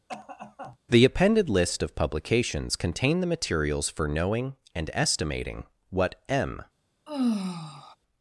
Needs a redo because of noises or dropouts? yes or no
yes